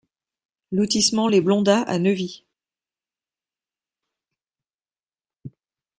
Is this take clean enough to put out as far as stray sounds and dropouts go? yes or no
yes